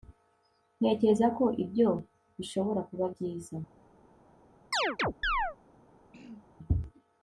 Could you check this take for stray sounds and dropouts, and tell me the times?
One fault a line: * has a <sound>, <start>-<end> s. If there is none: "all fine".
* has a chirp, 4.7-5.6 s
* has a throat clearing, 6.1-6.5 s